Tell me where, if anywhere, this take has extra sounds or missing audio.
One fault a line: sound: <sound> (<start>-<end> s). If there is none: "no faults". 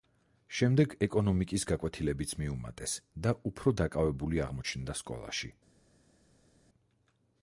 no faults